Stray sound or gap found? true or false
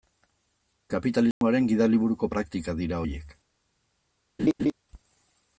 true